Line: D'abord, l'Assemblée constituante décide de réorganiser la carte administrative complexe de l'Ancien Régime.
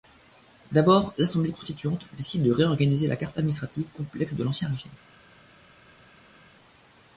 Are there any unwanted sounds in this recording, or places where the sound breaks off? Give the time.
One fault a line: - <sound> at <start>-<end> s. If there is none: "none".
none